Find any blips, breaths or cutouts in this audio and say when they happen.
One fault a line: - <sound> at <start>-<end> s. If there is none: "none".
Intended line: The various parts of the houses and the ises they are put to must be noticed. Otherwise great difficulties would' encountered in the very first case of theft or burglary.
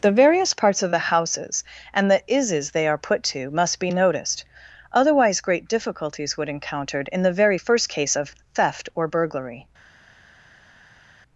none